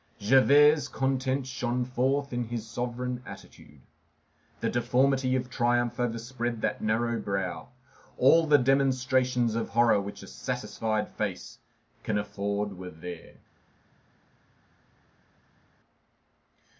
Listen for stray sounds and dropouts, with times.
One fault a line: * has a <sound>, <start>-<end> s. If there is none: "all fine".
all fine